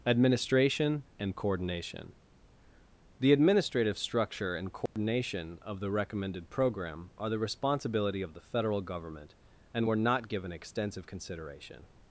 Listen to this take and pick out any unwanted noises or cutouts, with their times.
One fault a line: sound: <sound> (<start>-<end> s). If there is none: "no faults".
sound: dropout (4.9-5.0 s)